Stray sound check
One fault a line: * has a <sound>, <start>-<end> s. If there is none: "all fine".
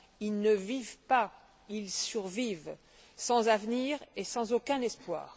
all fine